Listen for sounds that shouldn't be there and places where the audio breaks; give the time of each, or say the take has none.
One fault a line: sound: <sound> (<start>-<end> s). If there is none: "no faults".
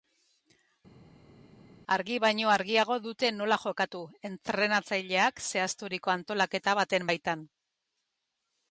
no faults